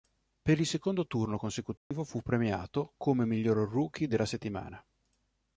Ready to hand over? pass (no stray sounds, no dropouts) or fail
fail